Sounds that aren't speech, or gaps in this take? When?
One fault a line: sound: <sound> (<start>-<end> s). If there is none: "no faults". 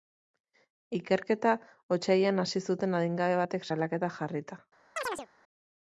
sound: chirp (5.0-5.3 s)